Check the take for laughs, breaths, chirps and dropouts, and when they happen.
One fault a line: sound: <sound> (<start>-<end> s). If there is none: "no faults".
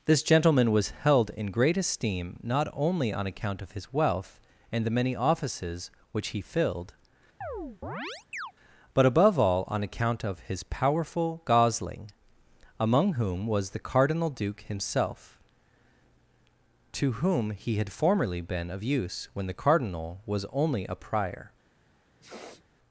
sound: chirp (7.4-8.5 s)
sound: sniff (22.2-22.6 s)